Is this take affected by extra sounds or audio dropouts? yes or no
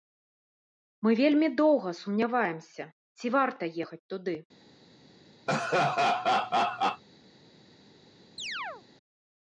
yes